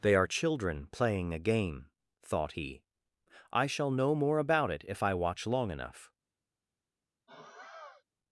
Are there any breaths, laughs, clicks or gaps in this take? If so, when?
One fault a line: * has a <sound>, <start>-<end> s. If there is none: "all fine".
* has a sigh, 7.3-8.0 s